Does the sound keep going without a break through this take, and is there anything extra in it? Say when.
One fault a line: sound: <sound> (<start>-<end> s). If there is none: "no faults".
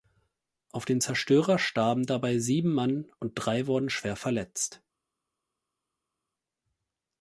no faults